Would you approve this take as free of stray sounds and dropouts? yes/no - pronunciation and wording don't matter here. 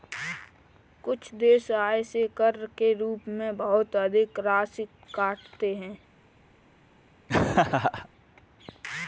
no